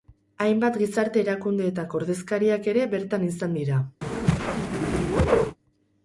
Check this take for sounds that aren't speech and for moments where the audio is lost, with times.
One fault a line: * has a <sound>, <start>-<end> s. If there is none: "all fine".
* has a whoosh, 4.0-5.6 s